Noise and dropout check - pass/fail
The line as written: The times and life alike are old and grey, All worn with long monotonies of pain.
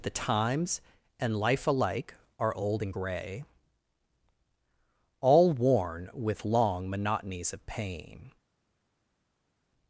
pass